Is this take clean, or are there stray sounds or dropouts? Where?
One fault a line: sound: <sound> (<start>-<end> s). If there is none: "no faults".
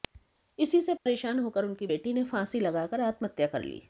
sound: dropout (1.0-1.1 s)